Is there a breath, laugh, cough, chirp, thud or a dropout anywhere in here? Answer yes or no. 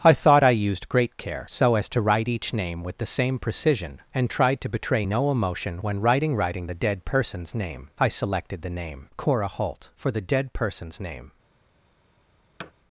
yes